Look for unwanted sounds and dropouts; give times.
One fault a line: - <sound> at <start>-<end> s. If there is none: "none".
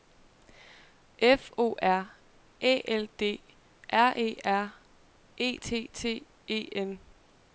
none